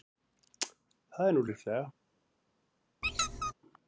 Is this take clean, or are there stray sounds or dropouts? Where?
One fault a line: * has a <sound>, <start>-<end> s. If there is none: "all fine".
* has a squeak, 3.0-3.5 s